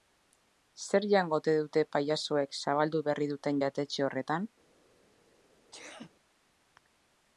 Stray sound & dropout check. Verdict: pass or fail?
fail